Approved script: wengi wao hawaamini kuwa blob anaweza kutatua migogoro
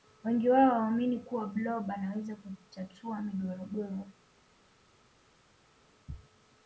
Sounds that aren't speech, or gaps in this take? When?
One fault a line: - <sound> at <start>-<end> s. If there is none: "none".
none